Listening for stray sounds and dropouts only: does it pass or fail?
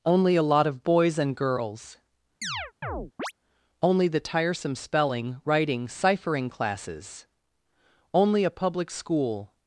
fail